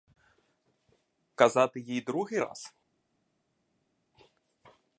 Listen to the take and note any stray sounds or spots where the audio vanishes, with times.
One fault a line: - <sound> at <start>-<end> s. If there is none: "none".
none